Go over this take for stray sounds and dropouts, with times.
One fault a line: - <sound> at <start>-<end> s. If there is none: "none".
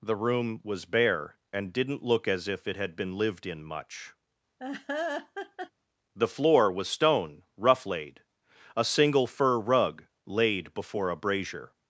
- laugh at 4.6-5.7 s